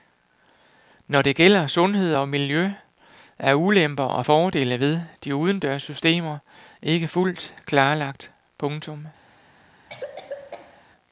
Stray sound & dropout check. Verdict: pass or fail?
fail